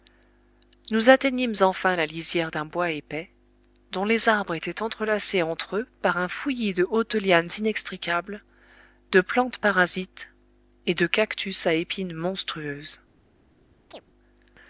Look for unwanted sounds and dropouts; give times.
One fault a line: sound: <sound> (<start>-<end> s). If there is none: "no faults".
sound: chirp (13.9-14.0 s)